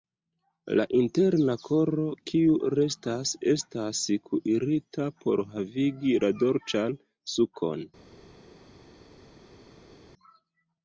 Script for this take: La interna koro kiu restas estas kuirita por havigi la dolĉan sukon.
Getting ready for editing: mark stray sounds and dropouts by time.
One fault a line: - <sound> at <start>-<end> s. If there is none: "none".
none